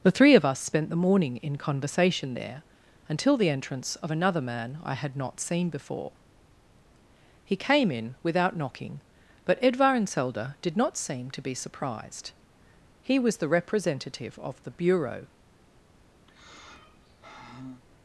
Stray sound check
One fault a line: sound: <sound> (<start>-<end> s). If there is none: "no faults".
sound: sigh (16.3-17.8 s)